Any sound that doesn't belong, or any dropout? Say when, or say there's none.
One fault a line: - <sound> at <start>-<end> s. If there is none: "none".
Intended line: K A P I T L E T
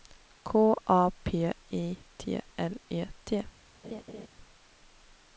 - laugh at 3.8-4.3 s